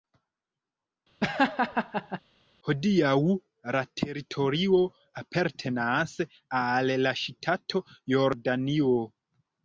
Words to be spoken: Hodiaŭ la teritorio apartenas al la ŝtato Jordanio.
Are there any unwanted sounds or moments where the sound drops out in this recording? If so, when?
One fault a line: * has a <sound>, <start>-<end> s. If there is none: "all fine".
* has a laugh, 1.2-2.2 s